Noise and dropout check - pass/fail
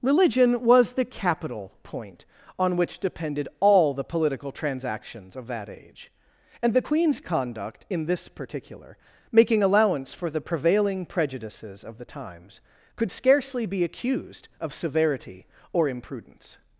pass